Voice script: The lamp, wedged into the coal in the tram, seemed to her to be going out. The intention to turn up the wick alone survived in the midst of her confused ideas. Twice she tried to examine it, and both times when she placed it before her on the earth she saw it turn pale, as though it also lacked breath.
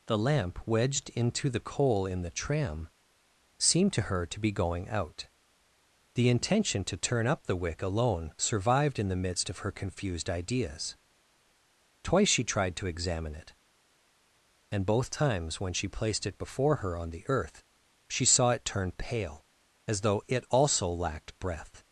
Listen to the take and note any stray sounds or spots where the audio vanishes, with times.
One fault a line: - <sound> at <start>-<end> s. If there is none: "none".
none